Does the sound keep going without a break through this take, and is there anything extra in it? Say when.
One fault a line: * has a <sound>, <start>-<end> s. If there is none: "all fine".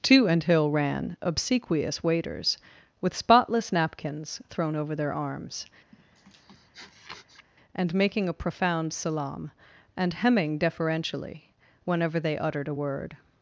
* has a sniff, 5.9-7.5 s